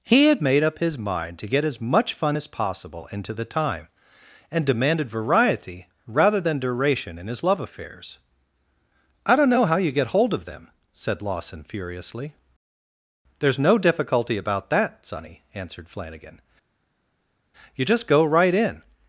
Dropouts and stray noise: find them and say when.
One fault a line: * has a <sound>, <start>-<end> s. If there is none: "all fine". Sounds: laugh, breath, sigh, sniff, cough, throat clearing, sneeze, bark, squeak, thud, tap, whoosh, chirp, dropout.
all fine